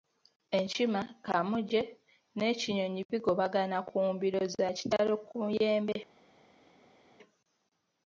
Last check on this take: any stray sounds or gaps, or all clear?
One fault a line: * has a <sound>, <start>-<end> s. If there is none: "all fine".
all fine